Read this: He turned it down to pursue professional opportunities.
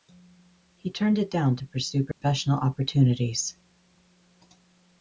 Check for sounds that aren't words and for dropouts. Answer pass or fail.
fail